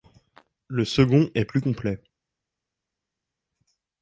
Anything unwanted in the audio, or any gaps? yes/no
no